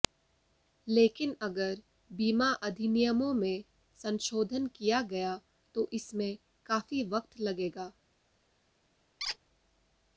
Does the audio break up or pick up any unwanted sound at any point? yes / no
yes